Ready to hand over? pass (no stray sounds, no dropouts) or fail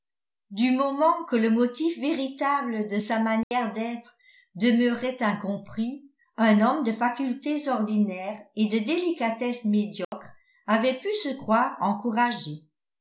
fail